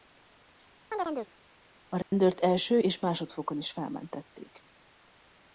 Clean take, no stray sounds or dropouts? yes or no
no